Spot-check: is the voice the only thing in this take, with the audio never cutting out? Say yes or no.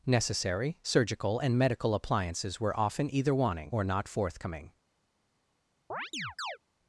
no